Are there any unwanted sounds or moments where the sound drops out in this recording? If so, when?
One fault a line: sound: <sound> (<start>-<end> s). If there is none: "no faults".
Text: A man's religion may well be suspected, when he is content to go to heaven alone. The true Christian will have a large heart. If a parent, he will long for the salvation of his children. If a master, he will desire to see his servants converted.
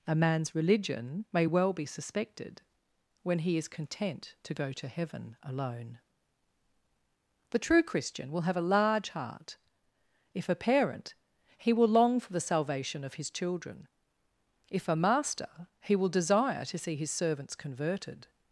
no faults